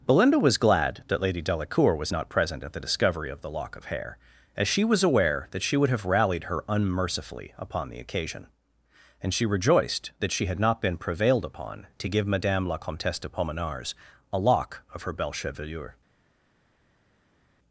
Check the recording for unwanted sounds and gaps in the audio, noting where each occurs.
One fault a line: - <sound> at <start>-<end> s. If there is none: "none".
none